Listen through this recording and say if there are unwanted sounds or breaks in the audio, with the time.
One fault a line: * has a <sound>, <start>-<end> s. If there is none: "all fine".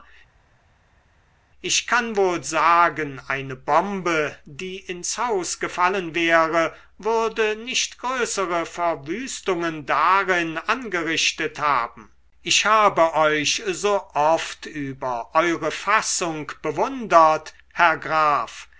all fine